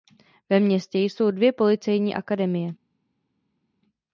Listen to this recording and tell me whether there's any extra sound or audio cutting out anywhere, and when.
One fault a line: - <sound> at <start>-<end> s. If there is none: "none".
none